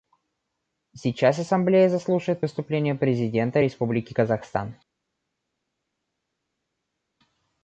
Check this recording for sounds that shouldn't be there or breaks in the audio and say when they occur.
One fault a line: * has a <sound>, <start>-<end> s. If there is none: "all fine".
all fine